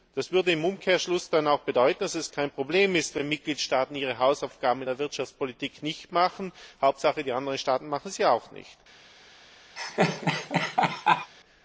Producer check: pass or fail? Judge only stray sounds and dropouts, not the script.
fail